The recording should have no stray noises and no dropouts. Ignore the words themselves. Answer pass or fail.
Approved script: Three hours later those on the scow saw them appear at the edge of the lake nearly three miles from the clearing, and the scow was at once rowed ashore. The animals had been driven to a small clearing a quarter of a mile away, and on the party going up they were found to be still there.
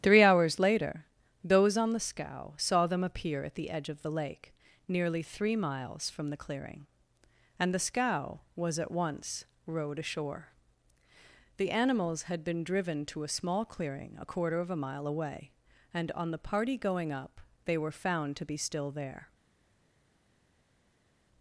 pass